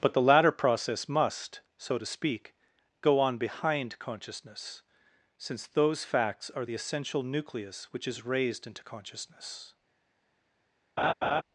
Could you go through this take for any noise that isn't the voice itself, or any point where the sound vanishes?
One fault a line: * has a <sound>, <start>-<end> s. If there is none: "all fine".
* has a laugh, 11.0-11.4 s